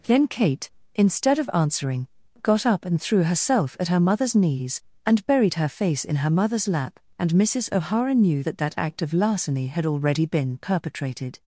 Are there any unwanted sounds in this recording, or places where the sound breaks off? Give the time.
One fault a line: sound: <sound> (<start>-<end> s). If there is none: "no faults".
no faults